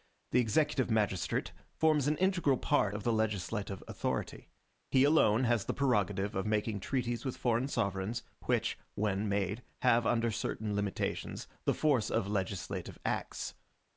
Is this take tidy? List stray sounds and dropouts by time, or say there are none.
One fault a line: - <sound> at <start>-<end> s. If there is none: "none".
none